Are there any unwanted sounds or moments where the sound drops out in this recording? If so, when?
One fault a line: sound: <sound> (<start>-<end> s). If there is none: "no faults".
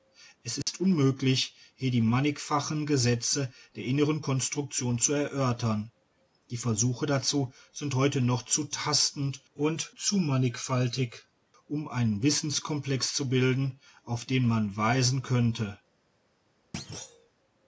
sound: dropout (0.6-0.7 s)
sound: thud (16.7-17.3 s)